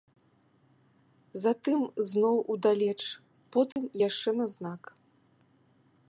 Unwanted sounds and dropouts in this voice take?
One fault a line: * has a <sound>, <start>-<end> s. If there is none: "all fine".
* has a dropout, 3.7-3.8 s